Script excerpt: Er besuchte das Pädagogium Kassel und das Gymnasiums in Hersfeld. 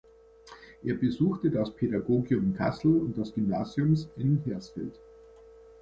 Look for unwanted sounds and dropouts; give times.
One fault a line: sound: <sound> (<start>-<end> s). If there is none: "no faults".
no faults